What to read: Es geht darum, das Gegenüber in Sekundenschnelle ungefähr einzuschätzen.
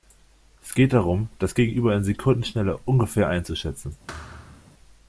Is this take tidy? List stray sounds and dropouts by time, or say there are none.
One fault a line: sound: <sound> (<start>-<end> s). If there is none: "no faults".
sound: thud (4.1-4.7 s)